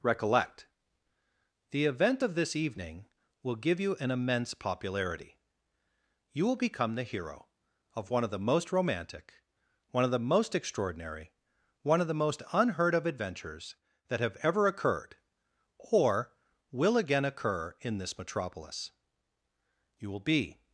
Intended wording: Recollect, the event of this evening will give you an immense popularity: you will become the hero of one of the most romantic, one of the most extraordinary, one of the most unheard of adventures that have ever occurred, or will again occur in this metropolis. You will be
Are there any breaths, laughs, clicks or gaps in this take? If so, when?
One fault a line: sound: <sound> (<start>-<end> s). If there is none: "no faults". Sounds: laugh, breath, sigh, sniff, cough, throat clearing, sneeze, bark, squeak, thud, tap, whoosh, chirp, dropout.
no faults